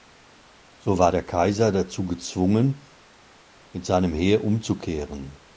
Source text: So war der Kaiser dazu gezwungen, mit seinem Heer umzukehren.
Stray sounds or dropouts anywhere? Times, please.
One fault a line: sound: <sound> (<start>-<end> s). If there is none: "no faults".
no faults